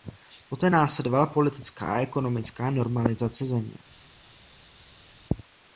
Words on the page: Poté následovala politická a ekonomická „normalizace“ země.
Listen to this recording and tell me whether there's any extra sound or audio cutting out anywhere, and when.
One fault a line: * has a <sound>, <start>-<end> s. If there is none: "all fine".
all fine